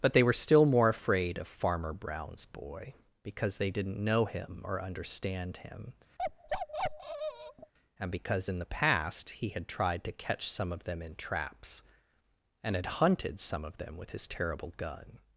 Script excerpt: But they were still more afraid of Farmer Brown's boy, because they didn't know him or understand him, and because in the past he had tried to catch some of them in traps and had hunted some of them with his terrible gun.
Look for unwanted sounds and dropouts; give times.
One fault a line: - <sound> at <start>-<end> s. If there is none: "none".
- bark at 6.2-7.7 s